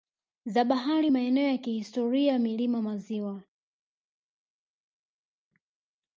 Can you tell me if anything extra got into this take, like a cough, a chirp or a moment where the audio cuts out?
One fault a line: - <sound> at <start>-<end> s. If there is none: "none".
none